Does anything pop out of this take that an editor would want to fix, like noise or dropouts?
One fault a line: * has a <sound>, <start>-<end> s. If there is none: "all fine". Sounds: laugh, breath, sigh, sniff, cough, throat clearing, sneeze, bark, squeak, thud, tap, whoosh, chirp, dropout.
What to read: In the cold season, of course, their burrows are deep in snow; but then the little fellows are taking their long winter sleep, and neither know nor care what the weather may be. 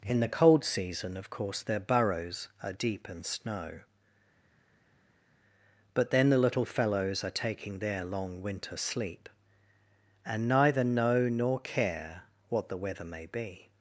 all fine